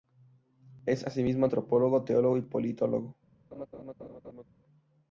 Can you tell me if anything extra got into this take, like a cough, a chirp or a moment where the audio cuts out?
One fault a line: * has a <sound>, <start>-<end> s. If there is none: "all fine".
* has a laugh, 3.5-4.4 s